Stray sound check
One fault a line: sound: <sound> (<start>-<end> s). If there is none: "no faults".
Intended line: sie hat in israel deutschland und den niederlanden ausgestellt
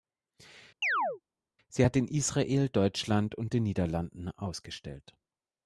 sound: chirp (0.8-1.2 s)